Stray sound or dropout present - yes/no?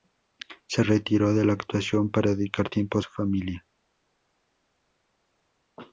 no